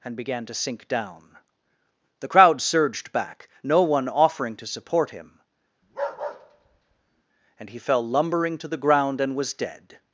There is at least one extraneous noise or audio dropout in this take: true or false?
true